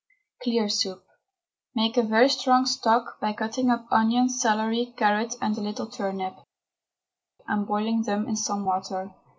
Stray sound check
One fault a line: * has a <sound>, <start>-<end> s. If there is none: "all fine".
all fine